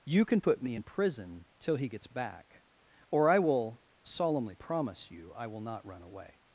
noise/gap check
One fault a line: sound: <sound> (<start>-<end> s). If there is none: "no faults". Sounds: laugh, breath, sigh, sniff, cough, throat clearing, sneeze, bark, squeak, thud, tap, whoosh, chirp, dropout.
no faults